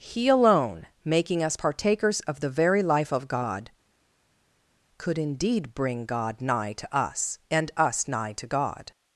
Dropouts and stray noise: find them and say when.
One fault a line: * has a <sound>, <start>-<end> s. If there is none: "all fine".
all fine